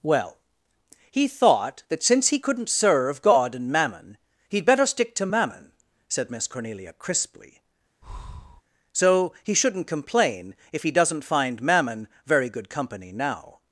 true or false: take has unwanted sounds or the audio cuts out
true